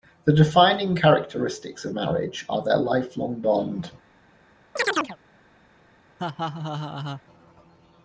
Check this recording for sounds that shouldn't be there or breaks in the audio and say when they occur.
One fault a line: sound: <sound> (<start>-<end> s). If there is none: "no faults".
sound: chirp (4.8-5.2 s)
sound: laugh (6.2-7.2 s)